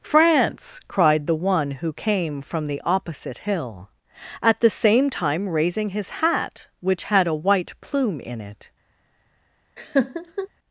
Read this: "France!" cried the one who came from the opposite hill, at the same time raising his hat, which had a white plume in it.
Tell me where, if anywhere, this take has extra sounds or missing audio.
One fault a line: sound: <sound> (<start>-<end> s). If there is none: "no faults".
sound: laugh (9.8-10.5 s)